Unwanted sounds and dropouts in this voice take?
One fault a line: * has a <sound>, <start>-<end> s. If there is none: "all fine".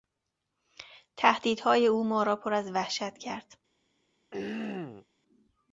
* has a throat clearing, 4.3-5.1 s